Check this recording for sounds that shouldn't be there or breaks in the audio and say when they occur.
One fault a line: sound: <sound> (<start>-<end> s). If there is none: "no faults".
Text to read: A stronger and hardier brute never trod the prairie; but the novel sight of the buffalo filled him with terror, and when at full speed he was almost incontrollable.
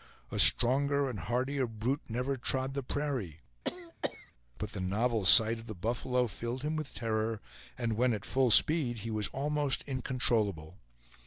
sound: cough (3.6-4.3 s)